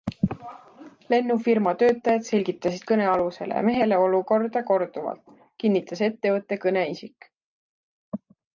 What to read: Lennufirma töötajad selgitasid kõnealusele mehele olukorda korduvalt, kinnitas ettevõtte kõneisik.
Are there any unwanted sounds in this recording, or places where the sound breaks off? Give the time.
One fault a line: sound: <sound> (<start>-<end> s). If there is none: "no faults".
no faults